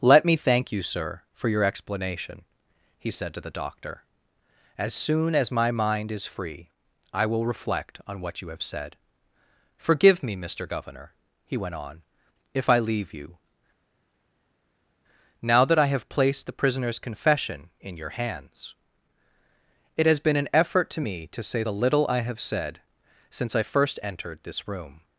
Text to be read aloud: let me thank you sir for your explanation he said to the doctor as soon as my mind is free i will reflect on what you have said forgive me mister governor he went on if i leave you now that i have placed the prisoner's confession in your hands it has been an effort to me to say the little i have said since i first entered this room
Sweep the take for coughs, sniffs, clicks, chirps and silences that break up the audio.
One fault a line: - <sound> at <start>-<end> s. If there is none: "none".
none